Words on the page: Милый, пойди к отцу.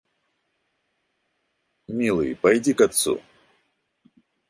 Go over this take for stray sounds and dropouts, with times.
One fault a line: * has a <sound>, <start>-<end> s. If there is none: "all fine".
all fine